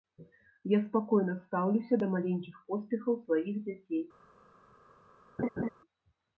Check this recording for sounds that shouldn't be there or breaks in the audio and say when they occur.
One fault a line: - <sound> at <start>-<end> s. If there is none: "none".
- laugh at 5.4-5.7 s